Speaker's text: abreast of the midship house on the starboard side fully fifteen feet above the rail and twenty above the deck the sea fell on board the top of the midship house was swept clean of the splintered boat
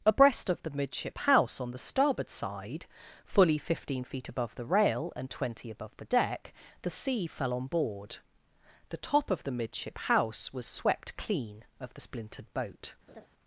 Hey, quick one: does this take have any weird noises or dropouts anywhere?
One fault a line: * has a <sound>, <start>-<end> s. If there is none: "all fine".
* has a laugh, 13.1-13.3 s